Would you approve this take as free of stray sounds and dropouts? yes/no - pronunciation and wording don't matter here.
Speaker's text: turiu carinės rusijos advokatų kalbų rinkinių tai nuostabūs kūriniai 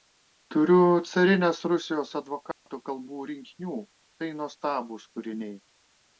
no